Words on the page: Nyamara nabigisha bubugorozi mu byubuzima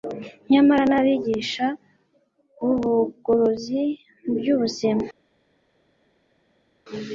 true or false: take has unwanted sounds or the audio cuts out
false